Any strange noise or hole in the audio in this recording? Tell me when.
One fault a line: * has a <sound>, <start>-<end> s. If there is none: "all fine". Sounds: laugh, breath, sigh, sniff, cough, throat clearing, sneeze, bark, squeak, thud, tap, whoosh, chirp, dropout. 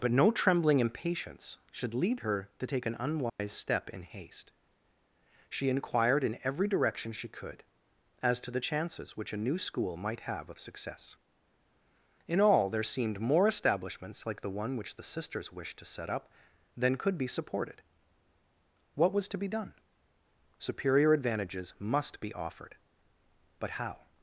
* has a dropout, 3.3-3.4 s